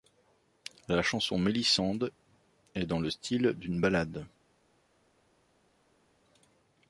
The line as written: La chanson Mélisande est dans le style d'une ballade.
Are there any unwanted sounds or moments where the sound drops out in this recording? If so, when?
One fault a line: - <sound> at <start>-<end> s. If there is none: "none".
none